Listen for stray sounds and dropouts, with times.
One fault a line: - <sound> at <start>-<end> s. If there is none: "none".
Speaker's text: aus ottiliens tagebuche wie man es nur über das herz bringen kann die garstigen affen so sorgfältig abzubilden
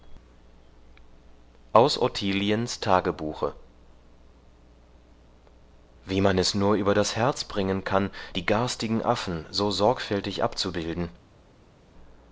none